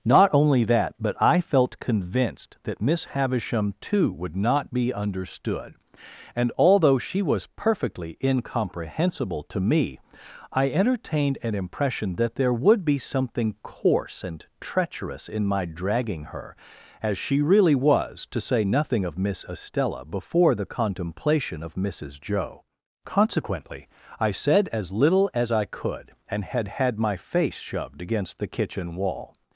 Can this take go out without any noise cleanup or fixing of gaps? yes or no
yes